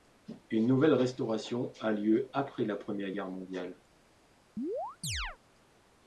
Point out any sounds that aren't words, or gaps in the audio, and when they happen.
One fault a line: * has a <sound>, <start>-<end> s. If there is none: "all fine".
* has a chirp, 4.6-5.4 s